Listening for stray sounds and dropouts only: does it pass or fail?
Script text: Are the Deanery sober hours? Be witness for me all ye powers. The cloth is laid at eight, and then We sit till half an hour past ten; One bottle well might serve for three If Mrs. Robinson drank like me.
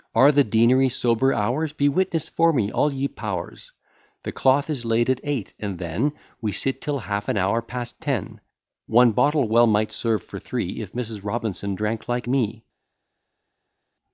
pass